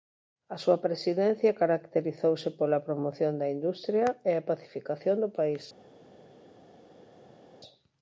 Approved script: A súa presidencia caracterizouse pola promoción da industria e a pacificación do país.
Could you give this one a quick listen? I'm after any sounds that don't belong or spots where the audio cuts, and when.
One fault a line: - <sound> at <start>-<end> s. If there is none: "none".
none